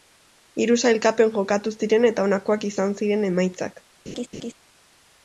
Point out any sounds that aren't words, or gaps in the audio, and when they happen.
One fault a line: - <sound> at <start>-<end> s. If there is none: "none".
- laugh at 4.1-4.5 s